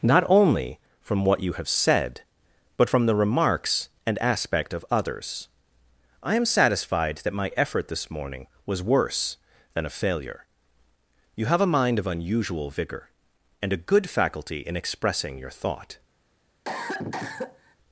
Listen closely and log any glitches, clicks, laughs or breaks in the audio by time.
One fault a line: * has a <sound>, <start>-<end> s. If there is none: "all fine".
* has a cough, 16.6-17.8 s